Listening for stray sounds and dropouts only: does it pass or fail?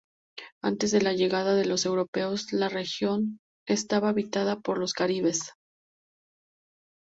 pass